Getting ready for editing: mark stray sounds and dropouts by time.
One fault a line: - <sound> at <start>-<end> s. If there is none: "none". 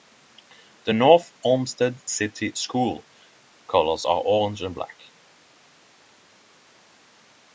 none